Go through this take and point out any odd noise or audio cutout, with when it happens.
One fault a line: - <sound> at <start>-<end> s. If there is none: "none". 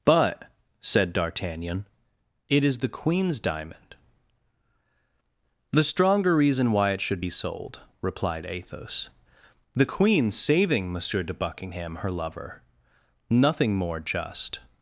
none